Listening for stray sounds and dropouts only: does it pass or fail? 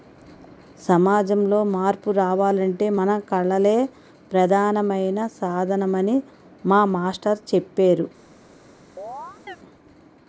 fail